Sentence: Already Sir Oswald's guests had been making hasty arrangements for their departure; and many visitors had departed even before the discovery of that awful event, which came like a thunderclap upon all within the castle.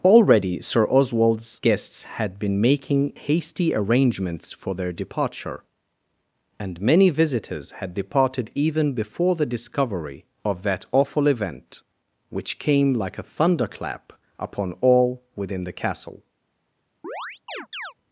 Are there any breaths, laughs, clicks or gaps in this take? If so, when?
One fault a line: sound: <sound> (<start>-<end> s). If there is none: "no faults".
sound: chirp (17.0-17.9 s)